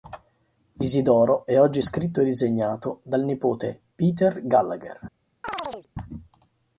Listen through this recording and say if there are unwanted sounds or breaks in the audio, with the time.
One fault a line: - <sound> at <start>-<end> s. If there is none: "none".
- chirp at 5.4-5.9 s